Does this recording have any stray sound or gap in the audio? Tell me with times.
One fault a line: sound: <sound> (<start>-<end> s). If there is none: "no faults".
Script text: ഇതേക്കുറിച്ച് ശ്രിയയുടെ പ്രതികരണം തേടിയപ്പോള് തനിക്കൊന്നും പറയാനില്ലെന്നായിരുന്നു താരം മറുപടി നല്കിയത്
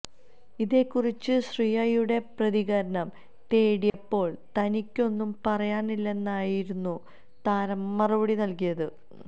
sound: dropout (3.9-3.9 s)